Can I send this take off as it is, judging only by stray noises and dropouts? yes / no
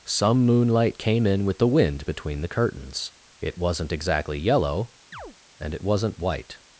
no